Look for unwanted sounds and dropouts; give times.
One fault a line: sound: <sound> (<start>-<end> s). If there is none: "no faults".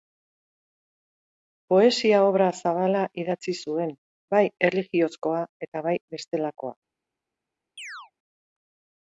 sound: chirp (7.8-8.1 s)